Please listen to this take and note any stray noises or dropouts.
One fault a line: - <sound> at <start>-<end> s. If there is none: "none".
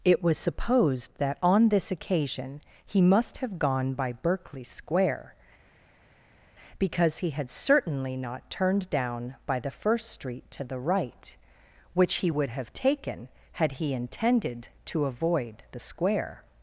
none